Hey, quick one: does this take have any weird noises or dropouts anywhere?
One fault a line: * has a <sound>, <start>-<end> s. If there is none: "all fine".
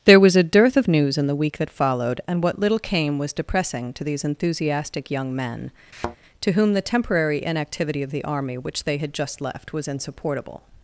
* has a thud, 5.9-6.2 s